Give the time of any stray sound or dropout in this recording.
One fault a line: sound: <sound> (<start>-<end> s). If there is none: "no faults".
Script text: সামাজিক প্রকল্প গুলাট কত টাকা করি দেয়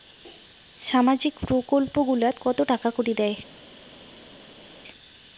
no faults